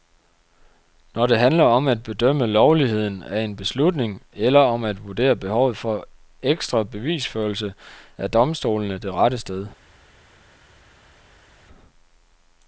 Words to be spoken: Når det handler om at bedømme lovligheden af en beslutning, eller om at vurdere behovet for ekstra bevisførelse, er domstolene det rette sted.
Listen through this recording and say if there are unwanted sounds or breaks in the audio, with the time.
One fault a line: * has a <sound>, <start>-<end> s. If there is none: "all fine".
all fine